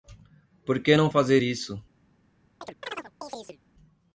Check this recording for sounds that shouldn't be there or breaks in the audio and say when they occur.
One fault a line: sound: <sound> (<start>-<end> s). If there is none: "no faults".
sound: chirp (2.6-3.6 s)